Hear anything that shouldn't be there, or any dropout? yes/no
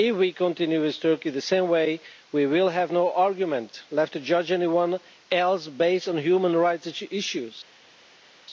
no